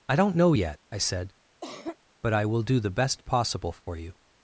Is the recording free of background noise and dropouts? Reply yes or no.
no